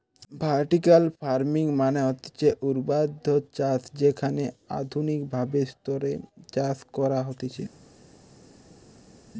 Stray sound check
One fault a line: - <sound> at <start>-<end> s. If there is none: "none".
none